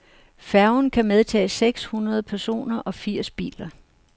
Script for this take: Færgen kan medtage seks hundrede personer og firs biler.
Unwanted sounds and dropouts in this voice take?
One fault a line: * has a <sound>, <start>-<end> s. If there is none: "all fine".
all fine